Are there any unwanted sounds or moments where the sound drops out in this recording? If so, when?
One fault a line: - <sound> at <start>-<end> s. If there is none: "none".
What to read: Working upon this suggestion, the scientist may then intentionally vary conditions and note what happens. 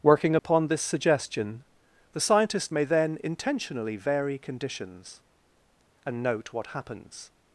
- dropout at 0.4-0.4 s